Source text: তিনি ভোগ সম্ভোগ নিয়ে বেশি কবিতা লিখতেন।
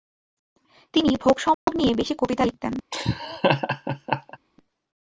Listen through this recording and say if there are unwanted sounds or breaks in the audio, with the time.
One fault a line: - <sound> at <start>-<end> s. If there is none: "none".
- dropout at 1.5-1.7 s
- laugh at 2.9-4.4 s